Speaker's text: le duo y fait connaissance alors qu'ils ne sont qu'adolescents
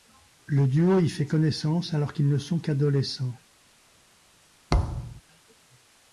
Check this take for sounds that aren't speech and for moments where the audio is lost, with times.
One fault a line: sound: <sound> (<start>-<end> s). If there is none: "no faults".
sound: thud (4.7-5.2 s)